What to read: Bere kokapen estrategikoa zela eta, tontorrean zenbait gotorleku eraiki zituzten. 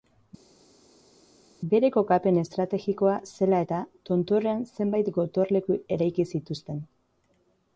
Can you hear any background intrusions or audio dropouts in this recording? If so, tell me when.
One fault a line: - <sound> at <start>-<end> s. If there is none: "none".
none